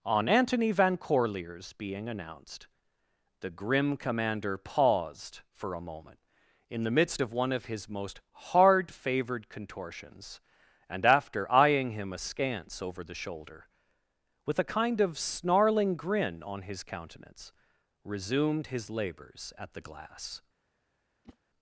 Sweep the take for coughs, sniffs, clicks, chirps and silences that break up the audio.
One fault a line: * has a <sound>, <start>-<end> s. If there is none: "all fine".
* has a whoosh, 21.2-21.4 s